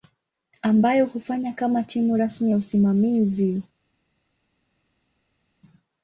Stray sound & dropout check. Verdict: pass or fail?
pass